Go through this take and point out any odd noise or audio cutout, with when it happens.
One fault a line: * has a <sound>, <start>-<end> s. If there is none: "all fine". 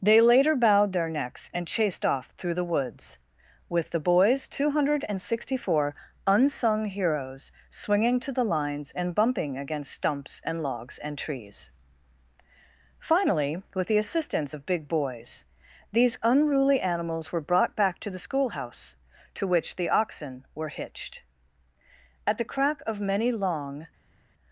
all fine